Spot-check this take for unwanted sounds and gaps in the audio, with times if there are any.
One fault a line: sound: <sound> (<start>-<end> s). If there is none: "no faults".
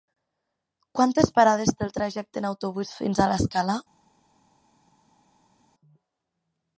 no faults